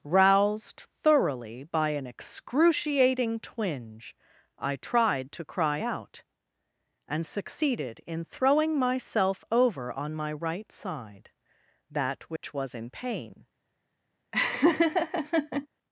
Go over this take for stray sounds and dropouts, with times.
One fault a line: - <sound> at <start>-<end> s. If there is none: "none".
- dropout at 12.4-12.4 s
- laugh at 14.3-15.7 s